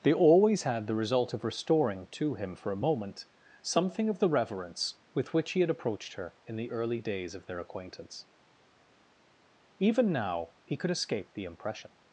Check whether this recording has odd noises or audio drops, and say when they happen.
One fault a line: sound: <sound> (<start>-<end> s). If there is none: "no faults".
no faults